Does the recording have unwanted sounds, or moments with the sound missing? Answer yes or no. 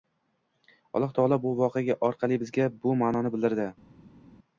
no